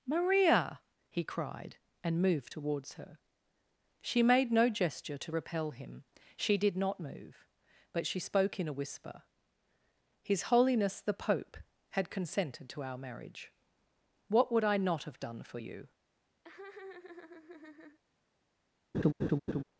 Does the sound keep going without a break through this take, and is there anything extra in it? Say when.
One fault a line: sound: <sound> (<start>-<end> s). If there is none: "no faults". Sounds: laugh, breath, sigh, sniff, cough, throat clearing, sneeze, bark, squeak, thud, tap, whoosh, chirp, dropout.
sound: laugh (16.4-18.0 s)
sound: laugh (18.9-19.6 s)